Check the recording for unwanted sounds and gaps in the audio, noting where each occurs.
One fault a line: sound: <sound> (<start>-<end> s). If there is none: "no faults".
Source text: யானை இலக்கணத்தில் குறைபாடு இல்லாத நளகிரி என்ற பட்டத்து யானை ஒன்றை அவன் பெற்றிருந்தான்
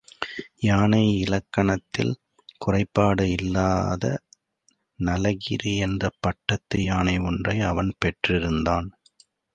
no faults